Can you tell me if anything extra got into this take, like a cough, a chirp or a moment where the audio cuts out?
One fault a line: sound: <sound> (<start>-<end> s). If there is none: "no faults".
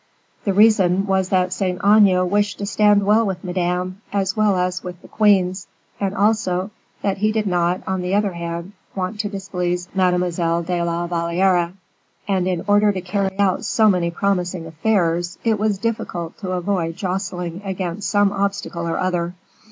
no faults